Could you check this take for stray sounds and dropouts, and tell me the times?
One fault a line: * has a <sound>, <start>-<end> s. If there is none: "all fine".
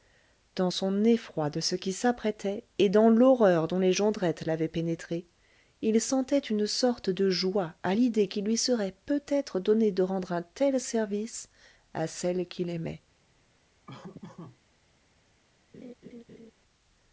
* has a laugh, 13.9-14.6 s
* has a laugh, 15.7-16.5 s